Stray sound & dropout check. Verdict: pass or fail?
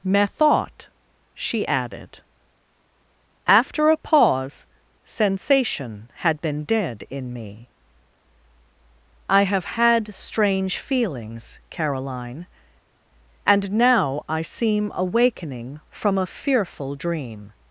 pass